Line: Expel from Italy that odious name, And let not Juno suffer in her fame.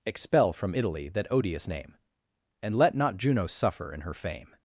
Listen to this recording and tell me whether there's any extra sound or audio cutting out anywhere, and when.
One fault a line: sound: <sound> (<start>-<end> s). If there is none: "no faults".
no faults